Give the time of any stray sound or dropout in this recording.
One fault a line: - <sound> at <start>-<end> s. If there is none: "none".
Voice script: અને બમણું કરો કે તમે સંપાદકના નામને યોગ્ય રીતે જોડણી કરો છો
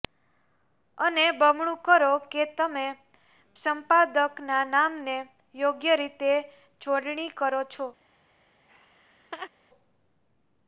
- laugh at 8.7-9.5 s